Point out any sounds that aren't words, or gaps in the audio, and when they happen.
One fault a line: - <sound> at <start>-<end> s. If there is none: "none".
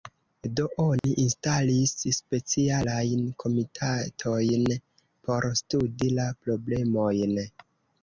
- dropout at 1.0-1.0 s